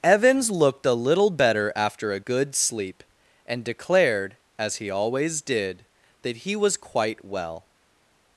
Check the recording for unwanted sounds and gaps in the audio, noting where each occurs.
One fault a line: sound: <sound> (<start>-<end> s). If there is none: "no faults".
no faults